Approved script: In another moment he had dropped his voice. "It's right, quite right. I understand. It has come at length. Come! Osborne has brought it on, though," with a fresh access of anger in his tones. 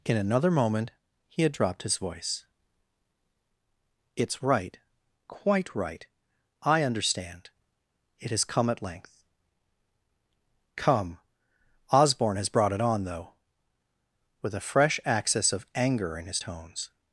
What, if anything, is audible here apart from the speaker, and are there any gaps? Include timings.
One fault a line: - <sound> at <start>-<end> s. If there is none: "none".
none